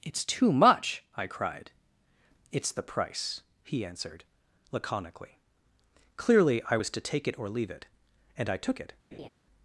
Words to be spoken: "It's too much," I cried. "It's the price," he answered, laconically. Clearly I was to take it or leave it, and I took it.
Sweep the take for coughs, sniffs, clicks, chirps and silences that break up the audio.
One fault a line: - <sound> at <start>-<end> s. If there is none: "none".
- laugh at 9.1-9.3 s